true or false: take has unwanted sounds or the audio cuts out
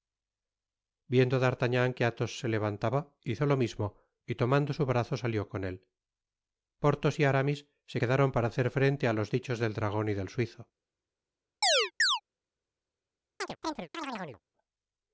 true